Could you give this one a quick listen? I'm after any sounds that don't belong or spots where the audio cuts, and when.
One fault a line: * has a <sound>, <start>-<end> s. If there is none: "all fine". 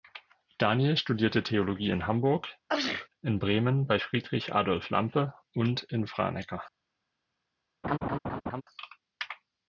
* has a sneeze, 2.7-3.1 s
* has a laugh, 7.8-8.6 s